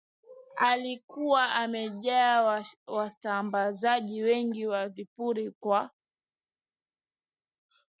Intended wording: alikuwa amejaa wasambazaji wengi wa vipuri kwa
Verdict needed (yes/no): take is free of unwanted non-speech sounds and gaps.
yes